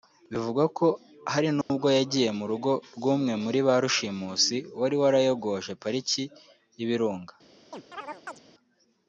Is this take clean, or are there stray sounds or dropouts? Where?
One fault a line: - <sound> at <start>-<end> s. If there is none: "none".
- dropout at 1.6-1.7 s
- chirp at 7.7-8.4 s